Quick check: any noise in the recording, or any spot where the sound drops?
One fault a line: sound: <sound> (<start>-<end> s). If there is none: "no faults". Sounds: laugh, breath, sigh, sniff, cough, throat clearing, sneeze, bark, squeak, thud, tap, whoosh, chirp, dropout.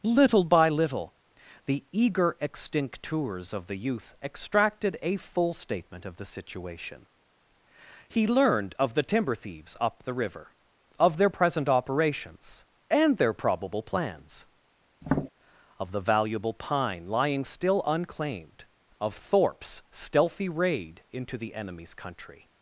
sound: tap (15.0-15.3 s)